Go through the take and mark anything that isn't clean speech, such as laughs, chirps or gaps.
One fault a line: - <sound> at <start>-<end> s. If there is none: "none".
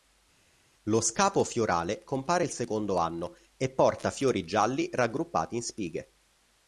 none